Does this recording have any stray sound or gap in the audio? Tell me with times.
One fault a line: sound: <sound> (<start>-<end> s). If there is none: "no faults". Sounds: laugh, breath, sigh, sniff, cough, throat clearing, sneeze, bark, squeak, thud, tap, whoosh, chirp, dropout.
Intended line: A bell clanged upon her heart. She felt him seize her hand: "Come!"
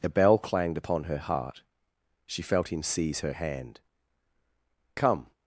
no faults